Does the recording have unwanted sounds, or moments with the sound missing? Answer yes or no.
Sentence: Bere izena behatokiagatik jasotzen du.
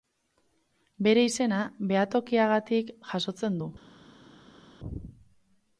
no